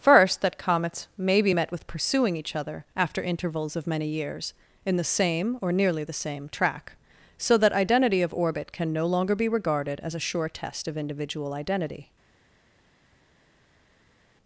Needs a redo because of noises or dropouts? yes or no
no